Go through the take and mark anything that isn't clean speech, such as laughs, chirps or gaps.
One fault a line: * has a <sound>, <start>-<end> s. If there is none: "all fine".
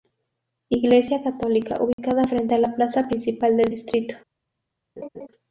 * has a dropout, 1.9-2.0 s
* has a laugh, 5.0-5.3 s